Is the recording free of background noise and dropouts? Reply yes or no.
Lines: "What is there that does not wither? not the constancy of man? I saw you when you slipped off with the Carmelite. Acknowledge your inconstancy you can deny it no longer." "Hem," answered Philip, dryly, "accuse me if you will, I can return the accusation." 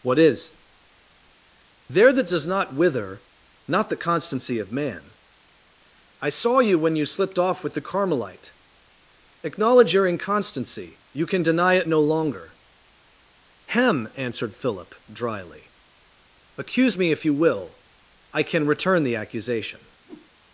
no